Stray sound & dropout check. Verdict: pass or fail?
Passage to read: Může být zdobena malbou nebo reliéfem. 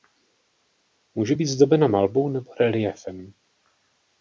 pass